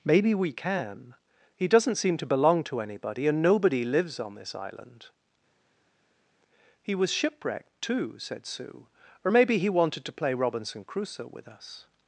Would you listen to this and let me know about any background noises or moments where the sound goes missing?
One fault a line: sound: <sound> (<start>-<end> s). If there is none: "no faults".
no faults